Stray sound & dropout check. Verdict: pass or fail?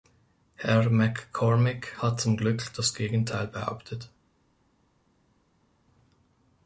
pass